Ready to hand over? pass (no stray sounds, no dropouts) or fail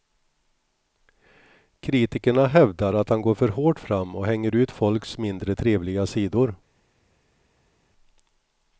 pass